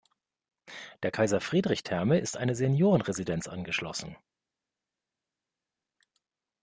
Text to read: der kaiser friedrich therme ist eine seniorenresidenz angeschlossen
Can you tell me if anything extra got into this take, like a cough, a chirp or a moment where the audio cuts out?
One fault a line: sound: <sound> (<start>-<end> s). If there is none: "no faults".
no faults